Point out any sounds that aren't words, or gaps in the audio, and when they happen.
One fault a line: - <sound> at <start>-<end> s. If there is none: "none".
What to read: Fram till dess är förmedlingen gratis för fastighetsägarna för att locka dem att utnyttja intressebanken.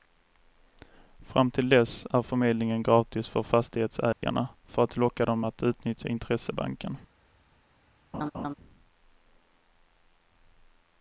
- dropout at 4.1-4.2 s
- laugh at 8.1-8.5 s